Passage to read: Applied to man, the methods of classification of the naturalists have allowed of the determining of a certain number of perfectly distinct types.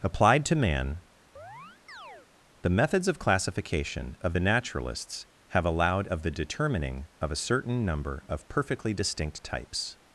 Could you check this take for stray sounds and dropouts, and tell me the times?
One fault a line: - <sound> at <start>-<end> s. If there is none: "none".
- chirp at 1.4-2.3 s